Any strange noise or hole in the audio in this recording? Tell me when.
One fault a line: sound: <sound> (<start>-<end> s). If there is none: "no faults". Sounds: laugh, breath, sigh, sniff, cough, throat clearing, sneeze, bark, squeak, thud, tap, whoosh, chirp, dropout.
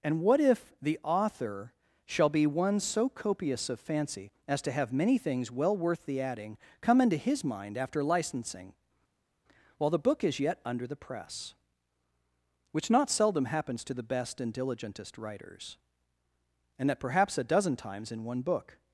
no faults